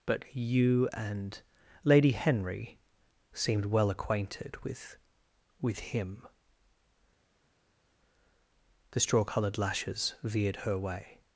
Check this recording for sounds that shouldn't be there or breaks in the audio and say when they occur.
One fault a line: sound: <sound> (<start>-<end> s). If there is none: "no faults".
no faults